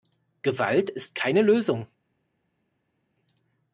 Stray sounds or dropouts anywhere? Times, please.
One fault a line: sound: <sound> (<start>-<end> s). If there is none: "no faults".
no faults